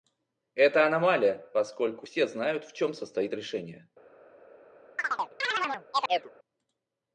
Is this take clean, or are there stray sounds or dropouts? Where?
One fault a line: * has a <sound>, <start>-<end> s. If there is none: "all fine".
* has a chirp, 5.0-6.3 s